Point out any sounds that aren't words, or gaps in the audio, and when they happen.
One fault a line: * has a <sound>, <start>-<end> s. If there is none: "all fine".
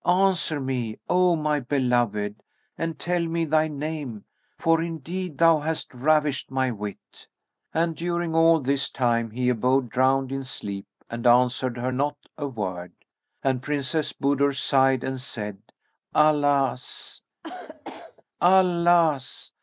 * has a cough, 17.4-18.2 s